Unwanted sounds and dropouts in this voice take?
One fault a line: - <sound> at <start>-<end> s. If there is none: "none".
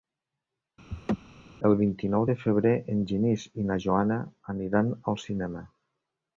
- laugh at 0.9-1.2 s